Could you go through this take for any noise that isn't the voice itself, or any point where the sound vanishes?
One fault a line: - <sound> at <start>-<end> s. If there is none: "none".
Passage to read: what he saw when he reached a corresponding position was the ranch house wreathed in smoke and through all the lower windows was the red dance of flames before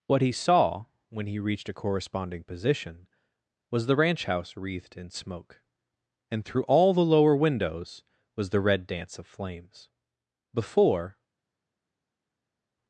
none